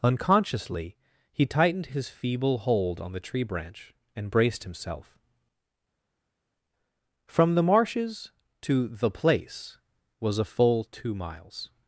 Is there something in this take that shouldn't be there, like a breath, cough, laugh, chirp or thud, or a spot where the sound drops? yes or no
no